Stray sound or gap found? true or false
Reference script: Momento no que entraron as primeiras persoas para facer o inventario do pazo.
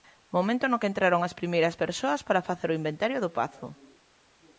false